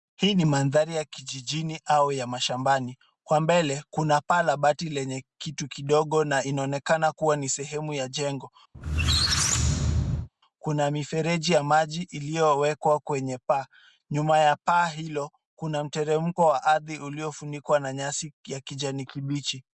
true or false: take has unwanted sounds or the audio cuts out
true